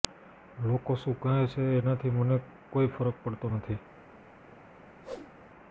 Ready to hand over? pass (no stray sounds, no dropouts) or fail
fail